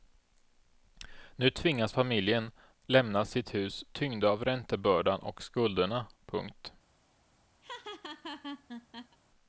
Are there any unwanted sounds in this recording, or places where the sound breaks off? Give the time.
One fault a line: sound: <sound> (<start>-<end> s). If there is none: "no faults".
sound: laugh (7.6-9.2 s)